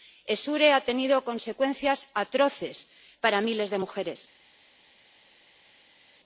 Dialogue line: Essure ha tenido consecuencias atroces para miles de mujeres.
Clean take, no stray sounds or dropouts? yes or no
yes